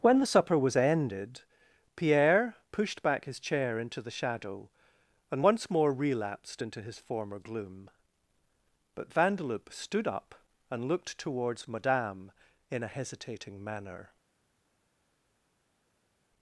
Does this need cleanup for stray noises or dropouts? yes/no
no